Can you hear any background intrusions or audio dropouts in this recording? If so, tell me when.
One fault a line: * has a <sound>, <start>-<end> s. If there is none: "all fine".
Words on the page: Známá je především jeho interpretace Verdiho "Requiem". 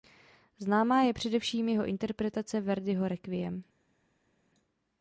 all fine